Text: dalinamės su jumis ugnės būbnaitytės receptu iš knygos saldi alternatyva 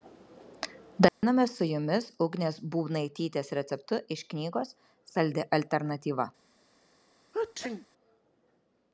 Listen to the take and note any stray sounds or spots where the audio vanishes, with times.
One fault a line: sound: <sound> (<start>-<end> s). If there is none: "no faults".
sound: dropout (1.1-1.2 s)
sound: sneeze (7.3-7.9 s)